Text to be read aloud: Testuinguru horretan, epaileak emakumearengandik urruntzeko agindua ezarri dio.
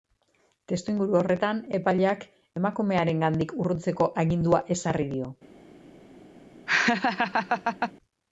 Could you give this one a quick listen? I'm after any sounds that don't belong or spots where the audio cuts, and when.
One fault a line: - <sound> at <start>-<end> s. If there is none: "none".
- laugh at 6.7-7.9 s